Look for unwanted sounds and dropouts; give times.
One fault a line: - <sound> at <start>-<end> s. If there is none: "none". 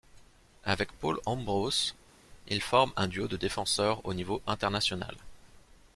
none